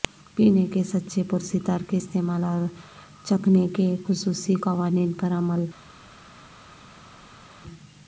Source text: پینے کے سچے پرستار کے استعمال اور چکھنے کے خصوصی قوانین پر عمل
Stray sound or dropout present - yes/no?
no